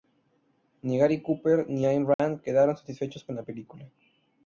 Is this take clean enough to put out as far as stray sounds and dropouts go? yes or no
no